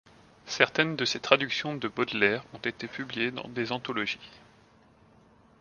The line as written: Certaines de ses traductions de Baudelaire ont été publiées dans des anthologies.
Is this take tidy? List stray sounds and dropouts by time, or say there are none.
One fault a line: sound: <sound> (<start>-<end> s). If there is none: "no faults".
no faults